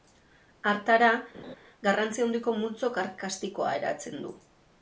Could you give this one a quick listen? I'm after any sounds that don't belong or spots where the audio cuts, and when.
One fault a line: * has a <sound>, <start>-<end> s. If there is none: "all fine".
* has a laugh, 1.3-1.6 s